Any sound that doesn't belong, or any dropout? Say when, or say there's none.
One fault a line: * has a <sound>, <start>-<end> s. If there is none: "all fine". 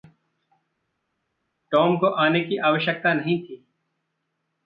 all fine